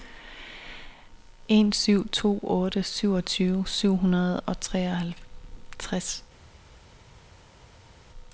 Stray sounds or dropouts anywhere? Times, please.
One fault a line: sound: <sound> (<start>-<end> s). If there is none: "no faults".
no faults